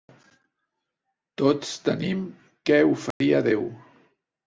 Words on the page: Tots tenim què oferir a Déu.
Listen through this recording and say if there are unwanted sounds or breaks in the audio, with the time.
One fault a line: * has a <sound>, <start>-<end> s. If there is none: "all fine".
* has a dropout, 3.1-3.2 s